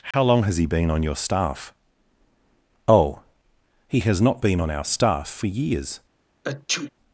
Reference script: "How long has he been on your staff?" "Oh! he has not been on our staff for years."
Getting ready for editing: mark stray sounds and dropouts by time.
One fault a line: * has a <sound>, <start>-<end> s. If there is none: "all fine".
* has a dropout, 0.1-0.1 s
* has a sneeze, 6.4-6.9 s